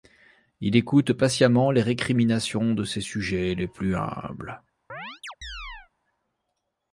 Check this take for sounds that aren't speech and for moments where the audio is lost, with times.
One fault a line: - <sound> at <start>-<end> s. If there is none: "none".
- chirp at 4.9-5.9 s